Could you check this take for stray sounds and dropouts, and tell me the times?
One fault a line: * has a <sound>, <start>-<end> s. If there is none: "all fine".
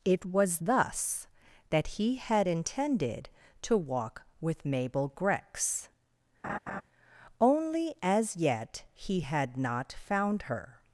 * has a laugh, 6.4-6.8 s